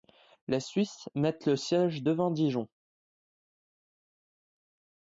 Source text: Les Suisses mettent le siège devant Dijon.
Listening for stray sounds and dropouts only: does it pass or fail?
pass